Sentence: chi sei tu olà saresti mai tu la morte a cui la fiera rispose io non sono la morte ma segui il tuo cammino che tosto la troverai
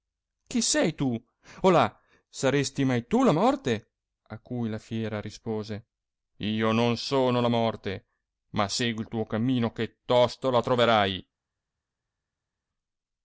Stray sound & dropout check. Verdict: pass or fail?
pass